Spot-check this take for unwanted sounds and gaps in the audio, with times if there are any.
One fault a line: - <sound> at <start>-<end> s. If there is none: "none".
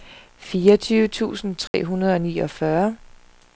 - dropout at 1.7-1.7 s